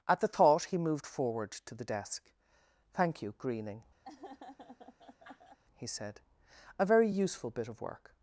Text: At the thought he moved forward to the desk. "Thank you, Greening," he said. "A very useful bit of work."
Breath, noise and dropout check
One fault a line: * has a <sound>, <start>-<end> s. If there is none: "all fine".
* has a laugh, 4.0-5.6 s